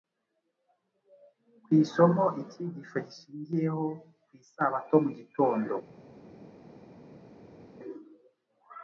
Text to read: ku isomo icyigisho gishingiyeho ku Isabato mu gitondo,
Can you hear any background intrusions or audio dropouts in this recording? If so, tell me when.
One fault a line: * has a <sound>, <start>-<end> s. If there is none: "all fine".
all fine